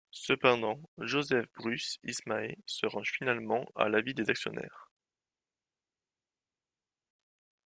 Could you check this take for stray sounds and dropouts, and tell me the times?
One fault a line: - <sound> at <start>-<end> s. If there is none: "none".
none